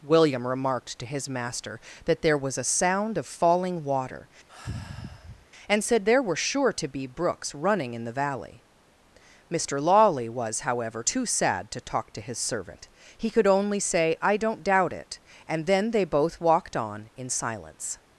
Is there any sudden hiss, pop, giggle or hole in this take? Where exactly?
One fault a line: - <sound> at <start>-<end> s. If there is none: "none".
- sigh at 4.5-5.4 s